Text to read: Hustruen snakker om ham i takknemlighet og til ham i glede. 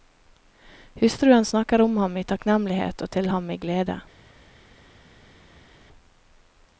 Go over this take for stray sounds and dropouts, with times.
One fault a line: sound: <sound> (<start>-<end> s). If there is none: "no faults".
no faults